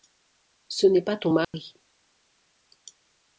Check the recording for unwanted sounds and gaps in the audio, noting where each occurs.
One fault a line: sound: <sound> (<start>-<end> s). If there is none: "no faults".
sound: dropout (1.4-1.5 s)